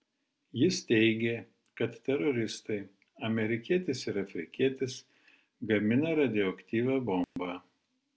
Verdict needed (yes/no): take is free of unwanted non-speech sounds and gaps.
no